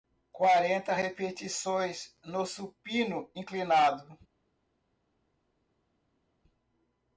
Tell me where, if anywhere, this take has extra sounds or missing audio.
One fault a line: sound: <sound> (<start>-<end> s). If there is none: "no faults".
no faults